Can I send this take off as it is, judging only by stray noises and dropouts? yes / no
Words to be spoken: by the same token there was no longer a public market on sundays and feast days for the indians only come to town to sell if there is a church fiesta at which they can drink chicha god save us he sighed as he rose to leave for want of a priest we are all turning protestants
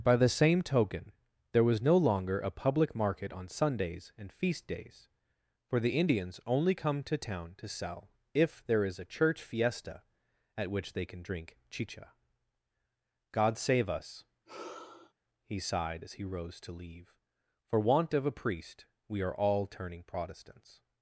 no